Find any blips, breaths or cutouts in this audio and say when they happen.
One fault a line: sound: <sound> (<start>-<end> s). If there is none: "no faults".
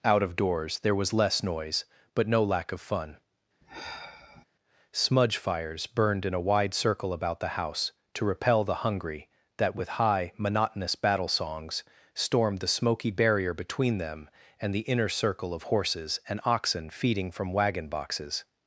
sound: sigh (3.6-4.4 s)